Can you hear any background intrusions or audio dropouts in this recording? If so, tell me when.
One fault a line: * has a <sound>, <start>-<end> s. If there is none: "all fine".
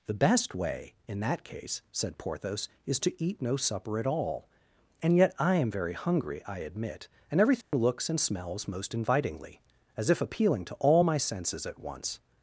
* has a dropout, 7.6-7.7 s